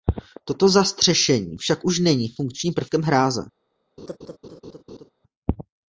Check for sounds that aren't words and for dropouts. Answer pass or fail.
fail